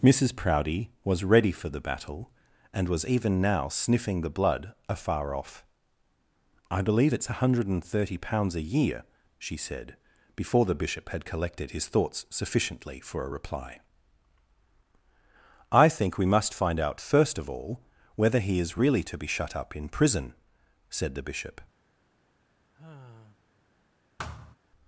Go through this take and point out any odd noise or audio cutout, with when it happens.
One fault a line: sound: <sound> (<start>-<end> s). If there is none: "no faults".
sound: sigh (22.7-23.4 s)
sound: thud (24.2-24.6 s)